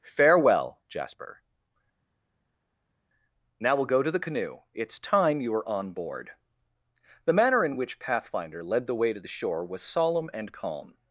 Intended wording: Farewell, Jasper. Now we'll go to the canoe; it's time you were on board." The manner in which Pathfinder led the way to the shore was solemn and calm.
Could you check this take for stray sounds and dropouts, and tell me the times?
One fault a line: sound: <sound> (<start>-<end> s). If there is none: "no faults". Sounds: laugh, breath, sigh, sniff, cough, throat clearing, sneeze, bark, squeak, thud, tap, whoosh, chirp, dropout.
no faults